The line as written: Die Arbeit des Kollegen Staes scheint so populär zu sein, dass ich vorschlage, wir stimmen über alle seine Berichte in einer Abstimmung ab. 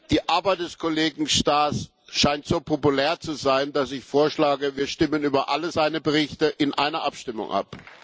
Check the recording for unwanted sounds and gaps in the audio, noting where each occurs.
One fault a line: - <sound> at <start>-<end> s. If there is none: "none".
none